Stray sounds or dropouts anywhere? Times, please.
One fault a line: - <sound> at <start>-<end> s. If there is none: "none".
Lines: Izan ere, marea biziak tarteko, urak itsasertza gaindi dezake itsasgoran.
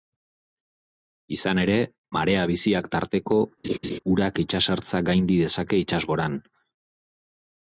- laugh at 3.6-4.0 s